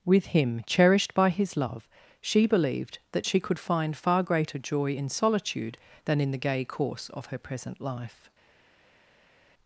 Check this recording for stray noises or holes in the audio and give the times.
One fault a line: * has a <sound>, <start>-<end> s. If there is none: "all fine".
all fine